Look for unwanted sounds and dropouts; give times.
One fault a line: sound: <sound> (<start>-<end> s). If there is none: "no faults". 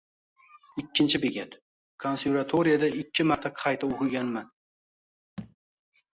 sound: thud (5.4-5.6 s)